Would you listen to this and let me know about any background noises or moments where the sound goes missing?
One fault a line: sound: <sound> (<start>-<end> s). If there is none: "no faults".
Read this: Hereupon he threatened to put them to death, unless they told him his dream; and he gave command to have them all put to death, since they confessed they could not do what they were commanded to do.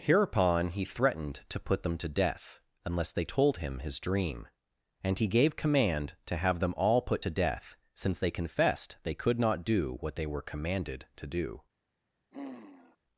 sound: sigh (12.3-13.0 s)